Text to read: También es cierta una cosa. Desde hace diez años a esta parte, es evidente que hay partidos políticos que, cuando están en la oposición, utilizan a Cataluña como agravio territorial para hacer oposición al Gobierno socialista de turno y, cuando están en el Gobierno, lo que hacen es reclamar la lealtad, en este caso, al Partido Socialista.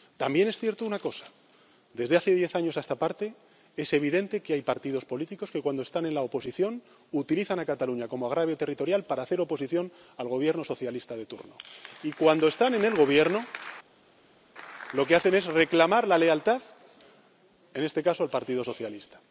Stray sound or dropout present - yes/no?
no